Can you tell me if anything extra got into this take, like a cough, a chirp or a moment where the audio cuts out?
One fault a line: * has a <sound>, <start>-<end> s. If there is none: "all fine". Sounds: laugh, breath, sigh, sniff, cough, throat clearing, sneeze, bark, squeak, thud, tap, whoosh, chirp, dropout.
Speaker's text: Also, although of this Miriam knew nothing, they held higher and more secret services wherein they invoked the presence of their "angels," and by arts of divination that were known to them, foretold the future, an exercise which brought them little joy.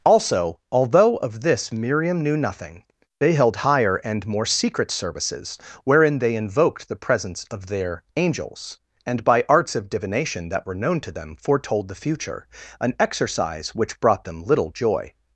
all fine